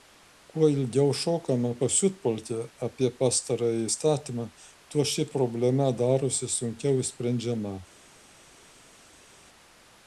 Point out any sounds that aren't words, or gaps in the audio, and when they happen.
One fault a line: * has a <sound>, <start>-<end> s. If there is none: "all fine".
all fine